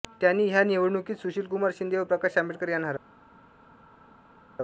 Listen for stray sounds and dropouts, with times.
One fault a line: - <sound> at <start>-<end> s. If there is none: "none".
none